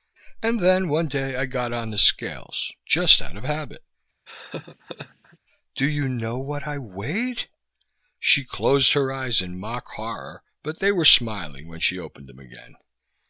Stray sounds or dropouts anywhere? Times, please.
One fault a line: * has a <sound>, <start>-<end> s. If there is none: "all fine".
* has a laugh, 4.3-5.4 s